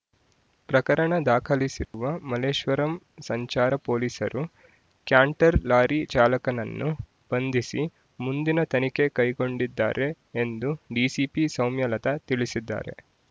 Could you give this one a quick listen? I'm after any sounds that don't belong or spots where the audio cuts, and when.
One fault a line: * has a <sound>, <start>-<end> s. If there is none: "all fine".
* has a dropout, 1.8-1.9 s